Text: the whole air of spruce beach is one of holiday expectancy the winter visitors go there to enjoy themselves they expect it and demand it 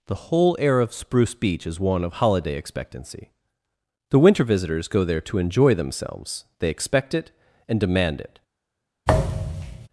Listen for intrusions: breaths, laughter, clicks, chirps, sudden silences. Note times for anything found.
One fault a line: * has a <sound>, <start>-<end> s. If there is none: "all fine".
* has a thud, 9.1-9.9 s